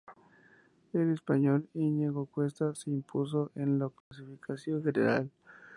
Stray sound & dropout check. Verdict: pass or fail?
fail